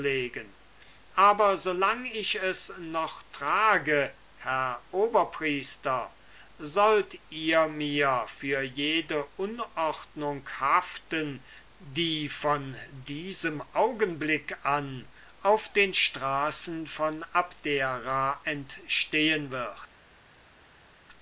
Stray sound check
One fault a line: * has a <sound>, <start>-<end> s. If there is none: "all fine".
all fine